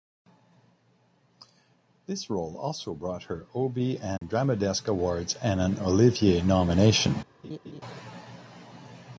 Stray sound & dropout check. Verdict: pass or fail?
fail